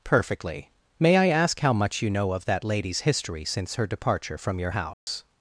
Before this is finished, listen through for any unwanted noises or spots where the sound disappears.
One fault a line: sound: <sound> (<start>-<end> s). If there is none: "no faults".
sound: dropout (4.9-5.1 s)